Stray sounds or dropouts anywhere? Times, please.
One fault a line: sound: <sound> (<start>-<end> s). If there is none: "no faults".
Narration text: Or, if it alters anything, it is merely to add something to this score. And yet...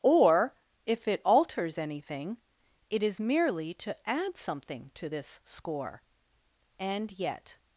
no faults